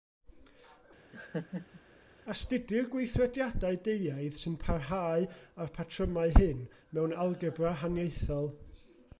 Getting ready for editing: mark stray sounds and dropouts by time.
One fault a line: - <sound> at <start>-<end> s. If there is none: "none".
- laugh at 1.1-1.8 s